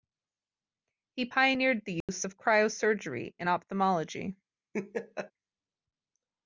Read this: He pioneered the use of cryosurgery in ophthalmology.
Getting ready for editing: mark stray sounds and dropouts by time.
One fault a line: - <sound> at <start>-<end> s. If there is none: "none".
- dropout at 2.0-2.1 s
- laugh at 4.7-5.3 s